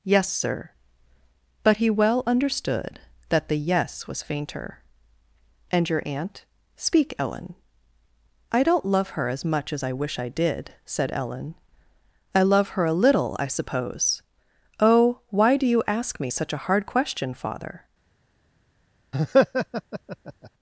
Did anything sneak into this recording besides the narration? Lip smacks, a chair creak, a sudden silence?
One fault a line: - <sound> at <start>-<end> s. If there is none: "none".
- laugh at 19.1-20.5 s